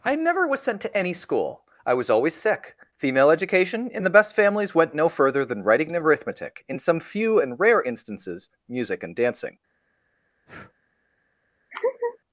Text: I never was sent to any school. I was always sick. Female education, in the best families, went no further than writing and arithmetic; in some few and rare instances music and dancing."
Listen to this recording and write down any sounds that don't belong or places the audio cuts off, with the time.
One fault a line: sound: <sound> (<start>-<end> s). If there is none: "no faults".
sound: breath (10.5-10.7 s)
sound: laugh (11.7-12.2 s)